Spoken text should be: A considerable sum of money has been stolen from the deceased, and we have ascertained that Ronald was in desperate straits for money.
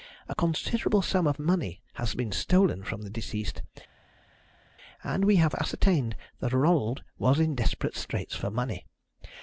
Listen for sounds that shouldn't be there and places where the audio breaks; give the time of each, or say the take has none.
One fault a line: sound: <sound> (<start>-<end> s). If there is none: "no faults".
no faults